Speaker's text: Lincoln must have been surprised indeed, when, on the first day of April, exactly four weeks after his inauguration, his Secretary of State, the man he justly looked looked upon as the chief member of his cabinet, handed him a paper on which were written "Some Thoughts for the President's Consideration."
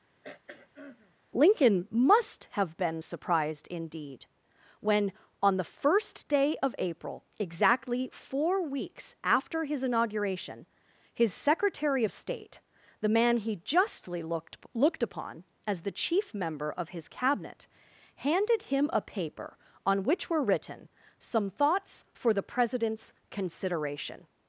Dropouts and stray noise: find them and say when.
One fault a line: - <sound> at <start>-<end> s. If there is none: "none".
- throat clearing at 0.2-1.1 s